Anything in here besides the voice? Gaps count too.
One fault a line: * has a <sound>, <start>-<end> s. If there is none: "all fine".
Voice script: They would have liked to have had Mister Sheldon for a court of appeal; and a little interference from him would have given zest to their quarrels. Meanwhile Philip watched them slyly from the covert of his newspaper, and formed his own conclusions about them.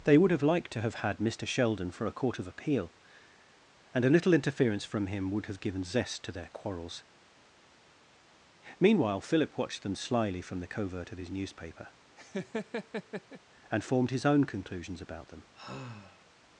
* has a laugh, 12.2-13.4 s
* has a sigh, 15.5-16.2 s